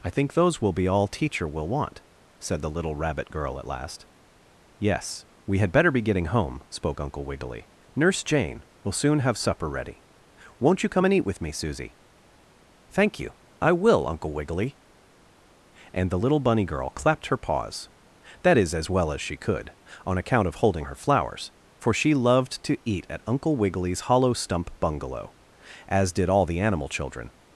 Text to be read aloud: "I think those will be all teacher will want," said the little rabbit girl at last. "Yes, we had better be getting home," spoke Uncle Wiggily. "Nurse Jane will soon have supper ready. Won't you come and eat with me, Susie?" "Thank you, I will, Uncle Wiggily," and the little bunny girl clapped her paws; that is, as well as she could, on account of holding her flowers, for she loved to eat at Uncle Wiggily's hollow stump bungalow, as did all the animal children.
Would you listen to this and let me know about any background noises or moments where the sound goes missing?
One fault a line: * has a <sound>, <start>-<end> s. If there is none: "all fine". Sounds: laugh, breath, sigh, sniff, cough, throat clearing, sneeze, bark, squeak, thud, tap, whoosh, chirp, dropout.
all fine